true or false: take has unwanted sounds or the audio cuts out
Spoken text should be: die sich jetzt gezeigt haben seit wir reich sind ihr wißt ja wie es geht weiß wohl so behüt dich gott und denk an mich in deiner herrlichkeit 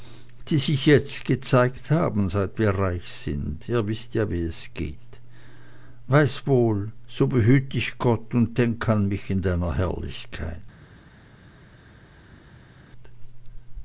false